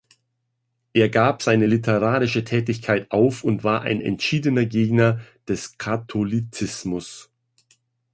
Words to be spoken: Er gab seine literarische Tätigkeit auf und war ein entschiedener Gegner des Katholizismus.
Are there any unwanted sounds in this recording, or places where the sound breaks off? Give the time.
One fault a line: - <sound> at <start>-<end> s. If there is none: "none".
none